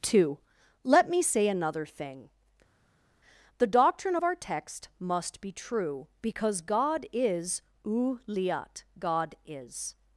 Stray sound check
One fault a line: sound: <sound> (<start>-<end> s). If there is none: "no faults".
no faults